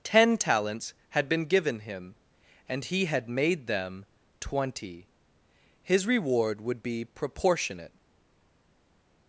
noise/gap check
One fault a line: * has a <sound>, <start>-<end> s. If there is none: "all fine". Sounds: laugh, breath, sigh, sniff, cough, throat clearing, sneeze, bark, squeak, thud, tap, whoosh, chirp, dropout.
all fine